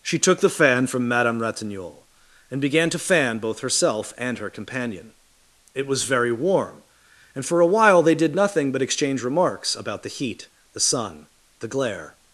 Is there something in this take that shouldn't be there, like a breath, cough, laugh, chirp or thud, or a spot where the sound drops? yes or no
no